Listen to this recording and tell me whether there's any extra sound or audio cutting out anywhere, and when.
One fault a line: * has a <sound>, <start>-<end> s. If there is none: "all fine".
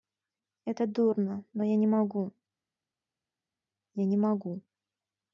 all fine